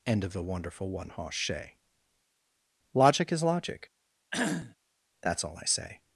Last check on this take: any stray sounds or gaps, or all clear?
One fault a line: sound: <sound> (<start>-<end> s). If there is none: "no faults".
sound: cough (4.3-4.8 s)